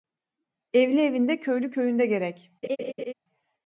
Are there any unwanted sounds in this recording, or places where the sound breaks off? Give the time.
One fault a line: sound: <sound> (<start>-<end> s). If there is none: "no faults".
sound: laugh (2.6-3.1 s)